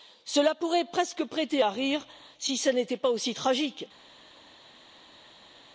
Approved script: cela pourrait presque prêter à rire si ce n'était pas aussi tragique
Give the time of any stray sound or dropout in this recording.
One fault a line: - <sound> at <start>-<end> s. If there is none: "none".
none